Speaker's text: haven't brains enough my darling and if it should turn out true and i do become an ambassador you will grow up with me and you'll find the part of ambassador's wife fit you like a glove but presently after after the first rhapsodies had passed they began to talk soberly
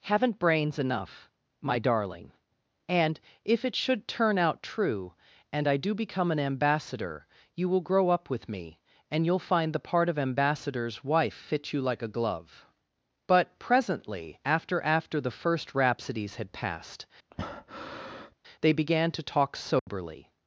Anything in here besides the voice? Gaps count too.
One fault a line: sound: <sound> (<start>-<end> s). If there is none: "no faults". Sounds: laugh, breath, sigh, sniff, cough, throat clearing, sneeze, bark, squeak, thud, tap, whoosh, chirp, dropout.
sound: breath (17.3-18.3 s)
sound: dropout (19.8-19.9 s)